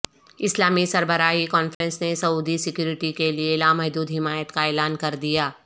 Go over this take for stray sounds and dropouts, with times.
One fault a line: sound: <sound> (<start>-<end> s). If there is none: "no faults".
sound: dropout (1.7-1.8 s)